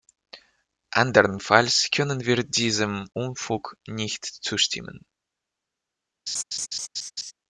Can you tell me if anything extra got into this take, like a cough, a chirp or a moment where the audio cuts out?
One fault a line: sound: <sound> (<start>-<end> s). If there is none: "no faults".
sound: laugh (6.3-7.3 s)